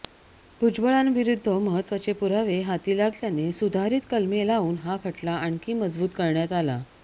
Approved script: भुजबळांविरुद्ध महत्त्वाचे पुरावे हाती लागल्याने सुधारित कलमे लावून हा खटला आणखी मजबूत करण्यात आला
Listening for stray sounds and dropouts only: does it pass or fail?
pass